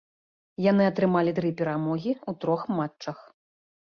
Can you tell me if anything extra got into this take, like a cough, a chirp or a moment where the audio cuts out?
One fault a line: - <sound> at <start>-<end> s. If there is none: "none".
none